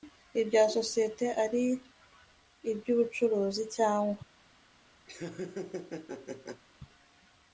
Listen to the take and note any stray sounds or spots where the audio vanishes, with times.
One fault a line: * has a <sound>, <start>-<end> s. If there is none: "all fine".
* has a laugh, 5.1-6.6 s